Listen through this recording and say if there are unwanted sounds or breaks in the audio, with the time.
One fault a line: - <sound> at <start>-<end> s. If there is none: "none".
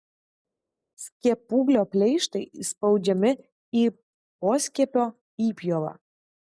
none